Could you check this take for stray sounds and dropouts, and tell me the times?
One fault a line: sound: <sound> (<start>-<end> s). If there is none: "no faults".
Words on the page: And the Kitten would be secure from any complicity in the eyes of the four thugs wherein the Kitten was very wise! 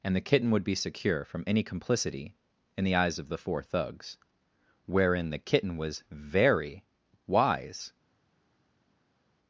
no faults